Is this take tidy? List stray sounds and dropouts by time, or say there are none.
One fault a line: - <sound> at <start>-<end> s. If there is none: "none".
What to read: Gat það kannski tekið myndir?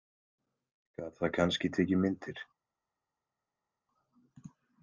none